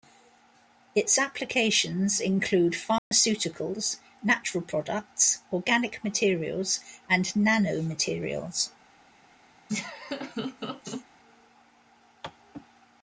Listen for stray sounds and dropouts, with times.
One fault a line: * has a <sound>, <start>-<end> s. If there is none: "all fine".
* has a dropout, 3.0-3.1 s
* has a laugh, 9.7-11.1 s